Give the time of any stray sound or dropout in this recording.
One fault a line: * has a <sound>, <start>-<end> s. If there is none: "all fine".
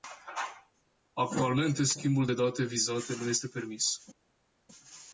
all fine